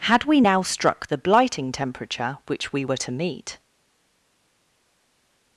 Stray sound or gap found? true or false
false